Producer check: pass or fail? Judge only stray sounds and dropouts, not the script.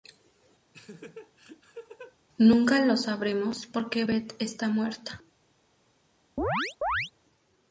fail